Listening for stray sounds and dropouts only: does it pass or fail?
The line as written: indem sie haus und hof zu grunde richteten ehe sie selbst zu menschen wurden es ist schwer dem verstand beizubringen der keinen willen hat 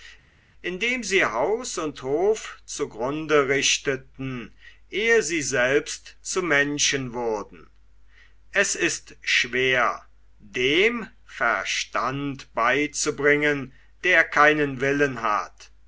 pass